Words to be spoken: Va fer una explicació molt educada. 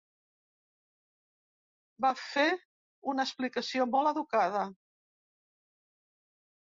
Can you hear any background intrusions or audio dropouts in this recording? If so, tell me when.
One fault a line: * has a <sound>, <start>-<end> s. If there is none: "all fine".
all fine